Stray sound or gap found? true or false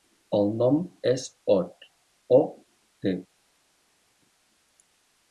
false